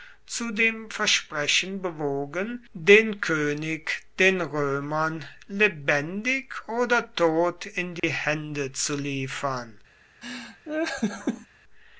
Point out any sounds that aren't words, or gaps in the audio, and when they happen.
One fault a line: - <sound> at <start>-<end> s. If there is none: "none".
- dropout at 8.0-8.0 s
- laugh at 10.2-11.5 s